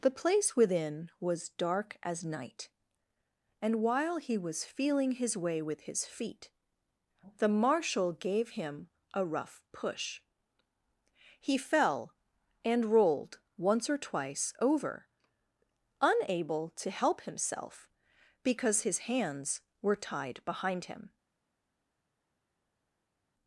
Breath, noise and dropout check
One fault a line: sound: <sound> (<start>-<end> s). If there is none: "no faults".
no faults